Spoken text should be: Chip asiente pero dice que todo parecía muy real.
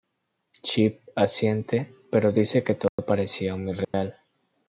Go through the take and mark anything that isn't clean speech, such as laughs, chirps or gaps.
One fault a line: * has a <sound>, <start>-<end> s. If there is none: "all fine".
* has a dropout, 2.9-3.0 s
* has a dropout, 3.8-3.9 s